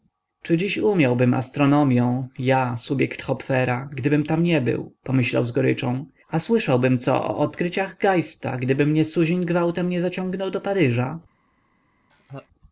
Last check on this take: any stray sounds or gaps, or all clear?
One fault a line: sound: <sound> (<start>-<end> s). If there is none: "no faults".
sound: laugh (12.1-12.5 s)